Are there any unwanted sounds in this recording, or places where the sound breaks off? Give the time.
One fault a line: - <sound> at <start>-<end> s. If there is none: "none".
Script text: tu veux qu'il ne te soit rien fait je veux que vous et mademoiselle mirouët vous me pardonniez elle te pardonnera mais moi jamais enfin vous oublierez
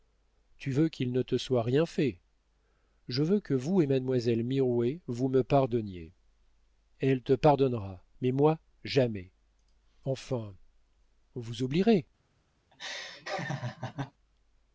- laugh at 12.7-14.1 s